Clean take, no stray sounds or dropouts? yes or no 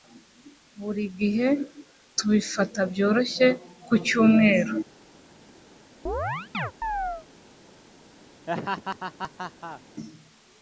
no